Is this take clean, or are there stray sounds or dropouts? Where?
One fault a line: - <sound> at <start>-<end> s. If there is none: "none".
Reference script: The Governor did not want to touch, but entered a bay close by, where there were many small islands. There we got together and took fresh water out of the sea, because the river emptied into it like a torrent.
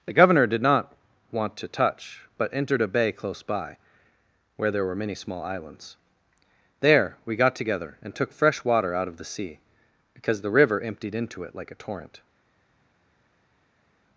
none